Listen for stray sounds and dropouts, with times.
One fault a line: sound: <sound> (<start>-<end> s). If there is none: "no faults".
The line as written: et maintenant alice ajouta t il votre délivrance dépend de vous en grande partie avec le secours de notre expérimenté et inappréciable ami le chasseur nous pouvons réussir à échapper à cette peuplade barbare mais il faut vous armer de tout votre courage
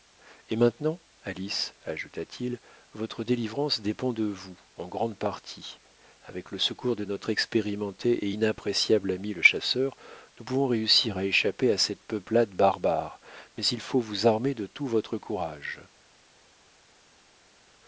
no faults